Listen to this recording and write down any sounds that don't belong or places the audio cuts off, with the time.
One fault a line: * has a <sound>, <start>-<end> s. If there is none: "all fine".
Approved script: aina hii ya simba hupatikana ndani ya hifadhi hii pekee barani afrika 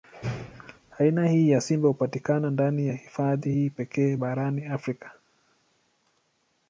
all fine